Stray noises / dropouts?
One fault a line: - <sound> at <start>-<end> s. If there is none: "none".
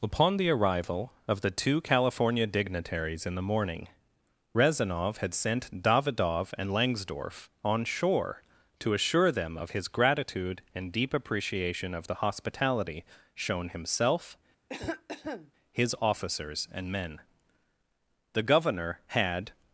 - cough at 14.7-15.5 s